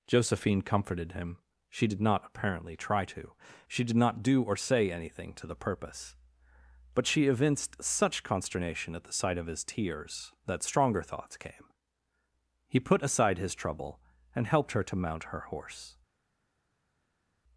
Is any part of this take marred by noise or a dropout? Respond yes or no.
no